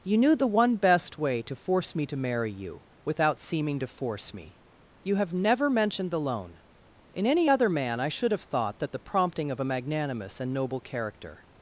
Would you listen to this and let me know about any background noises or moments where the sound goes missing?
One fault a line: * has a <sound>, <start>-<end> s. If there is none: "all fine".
all fine